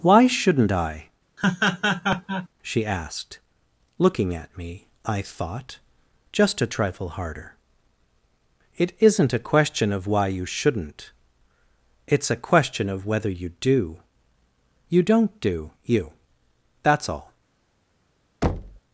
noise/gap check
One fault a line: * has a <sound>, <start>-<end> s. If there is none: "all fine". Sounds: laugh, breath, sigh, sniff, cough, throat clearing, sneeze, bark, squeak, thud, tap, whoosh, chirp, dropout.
* has a laugh, 1.4-2.5 s
* has a thud, 18.4-18.8 s